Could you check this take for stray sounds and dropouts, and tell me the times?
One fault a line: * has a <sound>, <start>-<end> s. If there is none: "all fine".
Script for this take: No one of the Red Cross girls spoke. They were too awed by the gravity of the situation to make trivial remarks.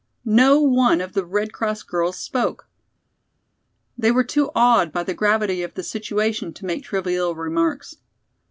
all fine